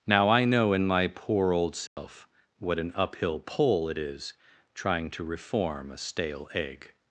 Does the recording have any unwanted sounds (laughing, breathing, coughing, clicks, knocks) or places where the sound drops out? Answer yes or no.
yes